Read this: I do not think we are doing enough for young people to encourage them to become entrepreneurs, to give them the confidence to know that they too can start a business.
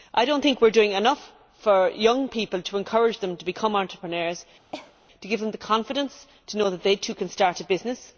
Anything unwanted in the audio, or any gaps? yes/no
yes